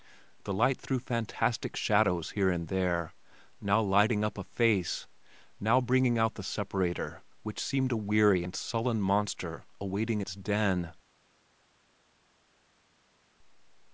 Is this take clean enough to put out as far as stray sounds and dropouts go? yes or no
yes